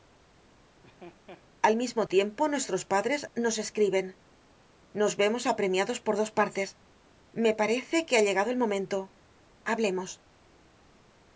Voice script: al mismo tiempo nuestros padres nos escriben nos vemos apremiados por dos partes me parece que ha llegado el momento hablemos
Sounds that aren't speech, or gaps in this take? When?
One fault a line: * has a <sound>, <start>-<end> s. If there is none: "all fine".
* has a laugh, 0.8-1.5 s